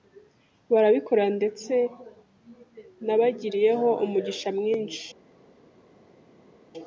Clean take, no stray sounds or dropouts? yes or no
yes